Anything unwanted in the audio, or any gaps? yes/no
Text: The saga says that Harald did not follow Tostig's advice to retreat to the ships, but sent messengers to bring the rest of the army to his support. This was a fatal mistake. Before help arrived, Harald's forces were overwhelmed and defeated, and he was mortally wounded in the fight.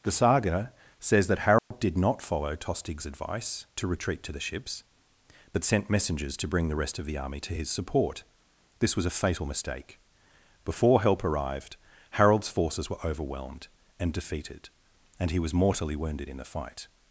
yes